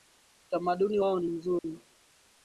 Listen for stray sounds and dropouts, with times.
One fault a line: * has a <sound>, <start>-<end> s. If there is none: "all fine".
* has a dropout, 1.6-1.6 s